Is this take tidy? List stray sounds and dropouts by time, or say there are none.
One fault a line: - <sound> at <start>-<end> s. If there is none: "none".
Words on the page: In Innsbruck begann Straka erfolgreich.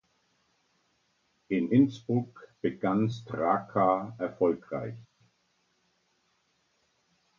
none